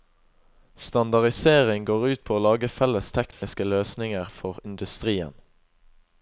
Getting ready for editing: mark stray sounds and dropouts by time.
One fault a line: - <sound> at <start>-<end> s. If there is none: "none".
- dropout at 3.3-3.4 s